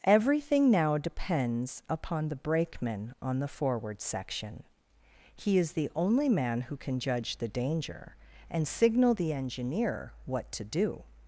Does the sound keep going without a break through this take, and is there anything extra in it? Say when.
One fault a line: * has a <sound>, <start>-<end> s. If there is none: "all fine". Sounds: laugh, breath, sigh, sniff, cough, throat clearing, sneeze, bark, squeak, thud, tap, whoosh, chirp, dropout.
all fine